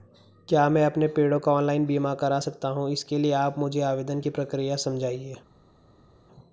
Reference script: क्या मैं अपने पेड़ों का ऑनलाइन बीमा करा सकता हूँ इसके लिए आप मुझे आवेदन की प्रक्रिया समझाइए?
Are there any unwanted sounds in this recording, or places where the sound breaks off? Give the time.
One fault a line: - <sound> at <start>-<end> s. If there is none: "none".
none